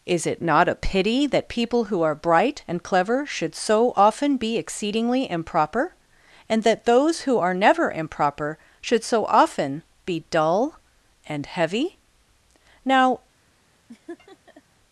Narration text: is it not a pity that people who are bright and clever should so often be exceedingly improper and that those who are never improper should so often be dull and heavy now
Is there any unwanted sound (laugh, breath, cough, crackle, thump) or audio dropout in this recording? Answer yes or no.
yes